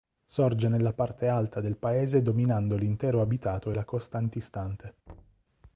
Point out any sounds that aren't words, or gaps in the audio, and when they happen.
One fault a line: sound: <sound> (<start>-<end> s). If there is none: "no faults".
sound: thud (5.1-5.4 s)